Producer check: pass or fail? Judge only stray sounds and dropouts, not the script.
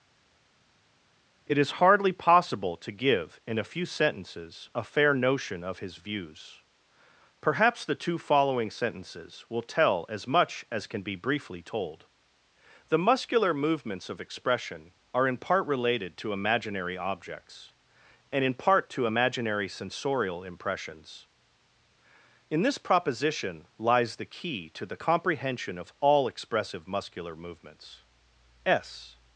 pass